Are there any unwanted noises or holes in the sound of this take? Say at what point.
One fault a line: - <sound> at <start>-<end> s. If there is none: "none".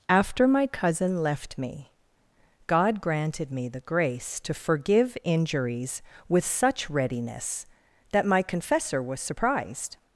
none